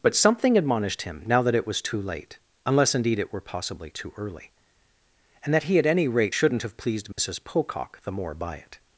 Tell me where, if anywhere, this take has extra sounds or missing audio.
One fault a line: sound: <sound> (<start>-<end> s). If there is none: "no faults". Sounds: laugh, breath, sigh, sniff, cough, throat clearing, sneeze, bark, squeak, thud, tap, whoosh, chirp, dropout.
sound: dropout (7.1-7.2 s)